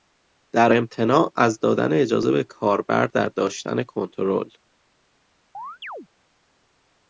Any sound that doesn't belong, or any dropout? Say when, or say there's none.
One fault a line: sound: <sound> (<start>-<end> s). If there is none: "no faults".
sound: chirp (5.5-6.1 s)